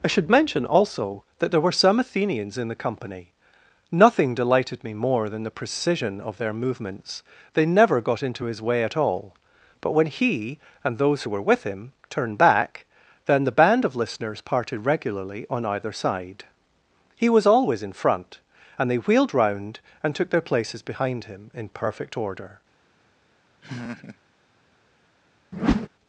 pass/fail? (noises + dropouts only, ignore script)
fail